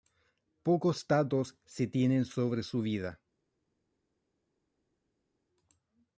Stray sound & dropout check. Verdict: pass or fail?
pass